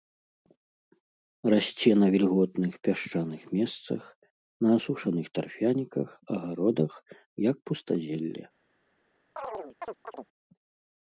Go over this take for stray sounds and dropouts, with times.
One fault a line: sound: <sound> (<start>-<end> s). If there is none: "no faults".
sound: chirp (9.4-10.3 s)